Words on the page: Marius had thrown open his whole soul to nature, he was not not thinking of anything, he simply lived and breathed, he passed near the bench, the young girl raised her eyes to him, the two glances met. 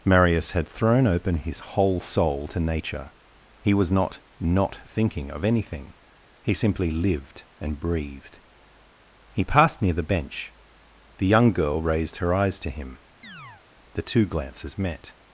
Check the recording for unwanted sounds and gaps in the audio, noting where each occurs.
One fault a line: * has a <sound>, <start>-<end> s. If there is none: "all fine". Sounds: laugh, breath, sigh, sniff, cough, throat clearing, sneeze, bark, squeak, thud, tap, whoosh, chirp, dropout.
* has a chirp, 13.2-13.6 s